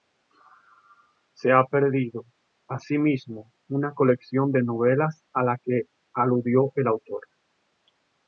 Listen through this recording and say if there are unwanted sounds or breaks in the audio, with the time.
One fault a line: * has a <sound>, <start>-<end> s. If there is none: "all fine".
all fine